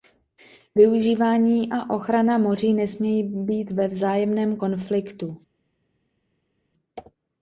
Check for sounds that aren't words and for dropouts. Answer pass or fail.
pass